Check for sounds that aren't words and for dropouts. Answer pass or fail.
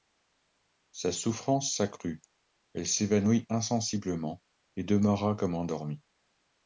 pass